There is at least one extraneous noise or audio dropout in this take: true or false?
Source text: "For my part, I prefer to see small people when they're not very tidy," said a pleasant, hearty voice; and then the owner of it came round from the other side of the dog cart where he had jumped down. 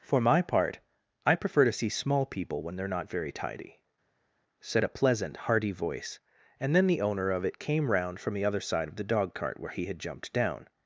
false